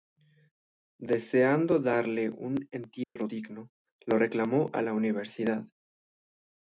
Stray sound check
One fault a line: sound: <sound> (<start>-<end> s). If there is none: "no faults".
sound: dropout (3.0-3.2 s)